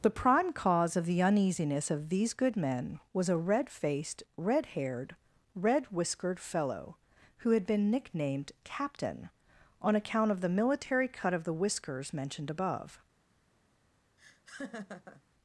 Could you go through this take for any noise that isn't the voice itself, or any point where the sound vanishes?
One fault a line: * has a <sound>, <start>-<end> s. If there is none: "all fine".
* has a laugh, 14.2-15.2 s